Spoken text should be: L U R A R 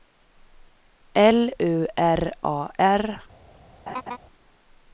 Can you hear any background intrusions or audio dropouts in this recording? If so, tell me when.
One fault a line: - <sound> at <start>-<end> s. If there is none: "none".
- laugh at 3.9-4.2 s